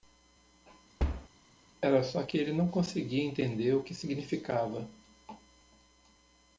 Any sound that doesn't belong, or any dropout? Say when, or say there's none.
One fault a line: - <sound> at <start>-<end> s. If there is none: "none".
- thud at 1.0-1.3 s